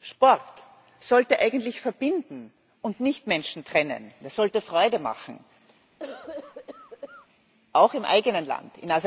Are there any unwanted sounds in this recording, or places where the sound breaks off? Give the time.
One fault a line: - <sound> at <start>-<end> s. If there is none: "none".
- cough at 6.0-7.3 s